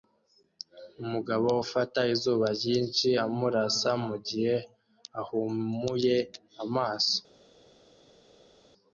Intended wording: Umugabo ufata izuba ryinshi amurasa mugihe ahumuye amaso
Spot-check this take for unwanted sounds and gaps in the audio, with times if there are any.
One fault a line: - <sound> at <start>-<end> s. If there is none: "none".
none